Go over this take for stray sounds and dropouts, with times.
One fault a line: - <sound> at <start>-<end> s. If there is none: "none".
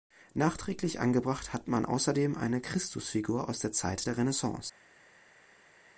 none